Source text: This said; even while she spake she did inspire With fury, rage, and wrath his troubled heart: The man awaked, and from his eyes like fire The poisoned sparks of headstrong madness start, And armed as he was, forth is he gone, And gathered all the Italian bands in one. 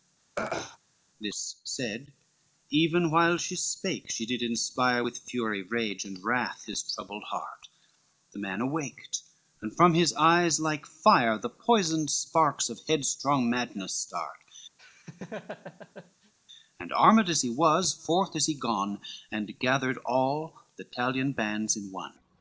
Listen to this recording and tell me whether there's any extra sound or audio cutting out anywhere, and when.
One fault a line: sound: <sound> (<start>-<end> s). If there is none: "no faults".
sound: throat clearing (0.4-0.8 s)
sound: laugh (14.8-16.3 s)